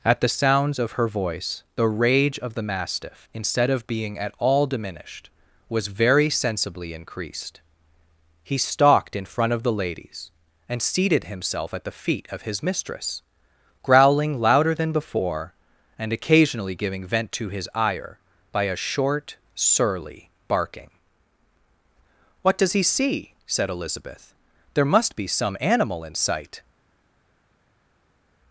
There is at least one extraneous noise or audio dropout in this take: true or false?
false